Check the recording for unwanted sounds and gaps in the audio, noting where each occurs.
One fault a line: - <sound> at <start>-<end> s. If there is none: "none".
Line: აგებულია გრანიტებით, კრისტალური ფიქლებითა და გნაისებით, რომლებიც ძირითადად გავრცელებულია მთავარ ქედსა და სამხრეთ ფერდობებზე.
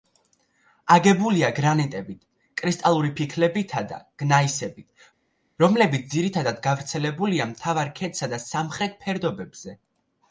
none